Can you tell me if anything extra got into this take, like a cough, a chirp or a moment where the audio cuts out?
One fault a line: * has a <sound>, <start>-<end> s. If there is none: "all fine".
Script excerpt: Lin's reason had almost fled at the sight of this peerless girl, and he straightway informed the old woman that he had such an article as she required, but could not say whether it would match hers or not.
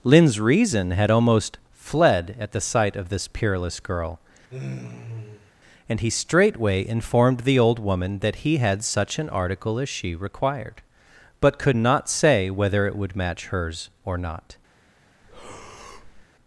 * has a sigh, 4.5-5.5 s
* has a breath, 15.2-16.3 s